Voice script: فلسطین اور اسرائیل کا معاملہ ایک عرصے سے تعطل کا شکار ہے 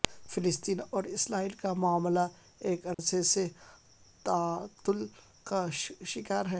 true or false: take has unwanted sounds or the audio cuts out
true